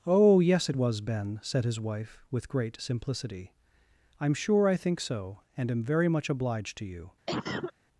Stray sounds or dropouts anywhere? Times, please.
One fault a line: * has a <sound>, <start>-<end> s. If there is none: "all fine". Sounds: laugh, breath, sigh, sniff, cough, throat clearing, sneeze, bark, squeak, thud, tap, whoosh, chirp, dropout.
* has a cough, 7.3-7.7 s